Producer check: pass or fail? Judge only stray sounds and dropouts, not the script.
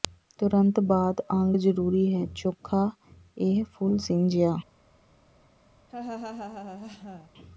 fail